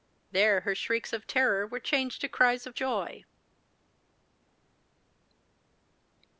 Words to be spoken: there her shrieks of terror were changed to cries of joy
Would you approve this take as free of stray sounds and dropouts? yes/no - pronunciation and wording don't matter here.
yes